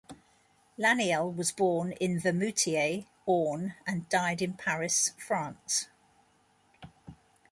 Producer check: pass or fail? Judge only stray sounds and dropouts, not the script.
pass